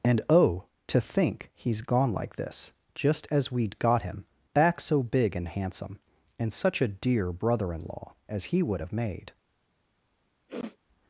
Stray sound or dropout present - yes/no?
yes